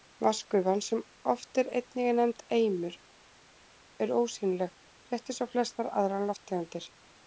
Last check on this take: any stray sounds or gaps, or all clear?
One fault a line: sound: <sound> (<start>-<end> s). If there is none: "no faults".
no faults